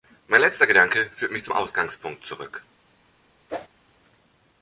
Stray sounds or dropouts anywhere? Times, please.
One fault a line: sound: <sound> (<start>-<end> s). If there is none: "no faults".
sound: whoosh (3.5-3.7 s)